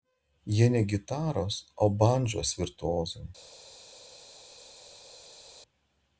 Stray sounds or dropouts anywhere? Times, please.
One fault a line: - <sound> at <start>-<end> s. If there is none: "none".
none